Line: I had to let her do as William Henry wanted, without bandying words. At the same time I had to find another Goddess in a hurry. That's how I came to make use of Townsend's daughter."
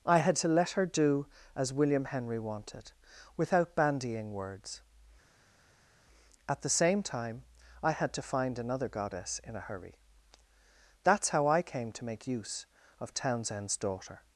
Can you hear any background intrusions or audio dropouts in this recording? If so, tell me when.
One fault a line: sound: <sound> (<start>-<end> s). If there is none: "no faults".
no faults